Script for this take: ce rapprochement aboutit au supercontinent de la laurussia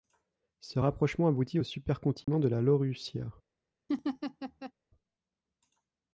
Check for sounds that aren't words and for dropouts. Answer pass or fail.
fail